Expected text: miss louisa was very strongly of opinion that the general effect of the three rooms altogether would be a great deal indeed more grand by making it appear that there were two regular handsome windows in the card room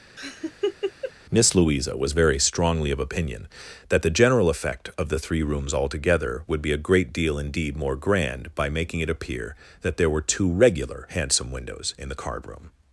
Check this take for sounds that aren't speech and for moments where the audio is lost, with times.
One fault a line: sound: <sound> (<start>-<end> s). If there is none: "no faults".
sound: laugh (0.2-1.1 s)